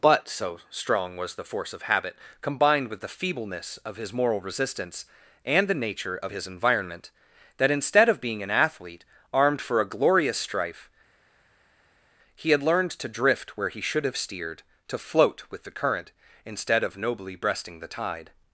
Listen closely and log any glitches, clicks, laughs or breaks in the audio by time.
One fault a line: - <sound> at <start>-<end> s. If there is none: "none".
none